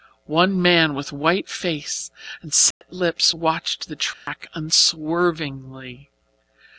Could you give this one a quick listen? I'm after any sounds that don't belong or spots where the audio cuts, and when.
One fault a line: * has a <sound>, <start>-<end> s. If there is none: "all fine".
* has a dropout, 2.7-2.8 s
* has a dropout, 4.1-4.3 s